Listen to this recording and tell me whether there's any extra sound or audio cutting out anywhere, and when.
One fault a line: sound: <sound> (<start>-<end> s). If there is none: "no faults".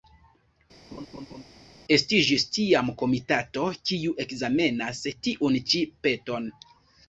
sound: laugh (0.9-1.4 s)